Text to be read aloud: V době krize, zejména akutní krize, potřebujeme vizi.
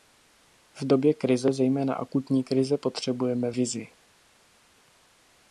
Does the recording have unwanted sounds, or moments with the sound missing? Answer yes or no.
no